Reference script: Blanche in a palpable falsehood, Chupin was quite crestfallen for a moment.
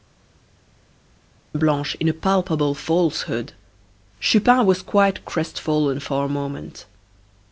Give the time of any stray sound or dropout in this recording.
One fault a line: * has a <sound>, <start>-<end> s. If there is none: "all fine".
all fine